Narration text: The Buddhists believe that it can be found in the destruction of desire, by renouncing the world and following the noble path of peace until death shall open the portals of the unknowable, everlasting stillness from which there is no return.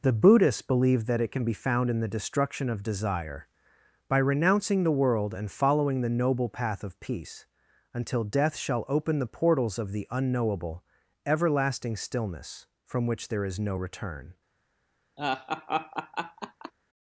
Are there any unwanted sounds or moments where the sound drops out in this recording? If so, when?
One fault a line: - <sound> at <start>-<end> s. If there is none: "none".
- laugh at 15.2-16.7 s